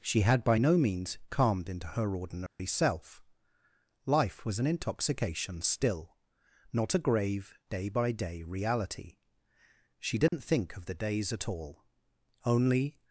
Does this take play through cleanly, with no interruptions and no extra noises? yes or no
no